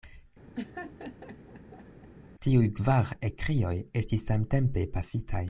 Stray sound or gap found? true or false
true